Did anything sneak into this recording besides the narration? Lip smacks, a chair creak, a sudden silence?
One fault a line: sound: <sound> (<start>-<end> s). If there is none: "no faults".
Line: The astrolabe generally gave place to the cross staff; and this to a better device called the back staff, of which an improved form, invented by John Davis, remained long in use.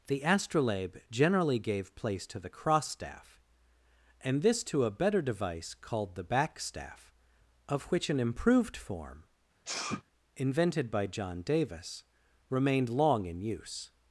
sound: sneeze (9.6-10.0 s)